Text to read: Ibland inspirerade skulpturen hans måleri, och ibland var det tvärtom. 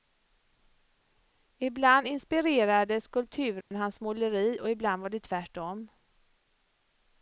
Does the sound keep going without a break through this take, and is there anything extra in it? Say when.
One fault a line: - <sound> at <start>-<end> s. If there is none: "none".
- dropout at 3.6-3.7 s